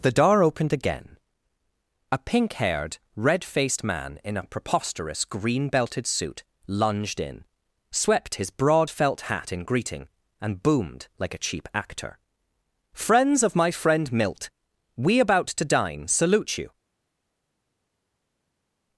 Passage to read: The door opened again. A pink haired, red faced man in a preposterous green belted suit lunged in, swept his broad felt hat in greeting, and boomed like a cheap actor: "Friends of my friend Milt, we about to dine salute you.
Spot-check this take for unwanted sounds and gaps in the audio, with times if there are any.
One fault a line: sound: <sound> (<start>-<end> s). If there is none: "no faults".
no faults